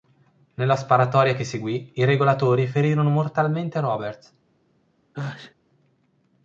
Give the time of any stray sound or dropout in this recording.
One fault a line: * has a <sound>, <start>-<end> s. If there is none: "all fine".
* has a sneeze, 5.1-5.5 s